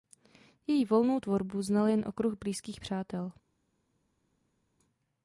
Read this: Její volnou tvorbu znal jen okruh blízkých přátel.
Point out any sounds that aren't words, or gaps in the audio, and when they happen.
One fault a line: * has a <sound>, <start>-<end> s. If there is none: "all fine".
all fine